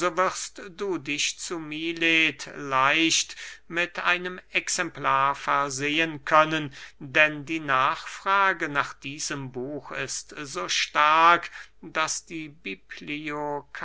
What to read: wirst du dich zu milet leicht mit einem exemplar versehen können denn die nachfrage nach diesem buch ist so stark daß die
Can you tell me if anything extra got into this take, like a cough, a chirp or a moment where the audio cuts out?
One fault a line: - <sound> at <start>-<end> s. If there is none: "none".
none